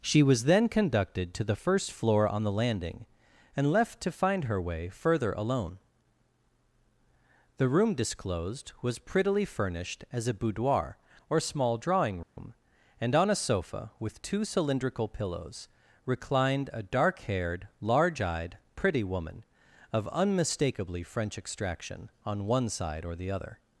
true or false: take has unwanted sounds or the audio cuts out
true